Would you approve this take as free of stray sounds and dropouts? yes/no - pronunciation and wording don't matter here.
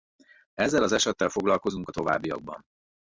yes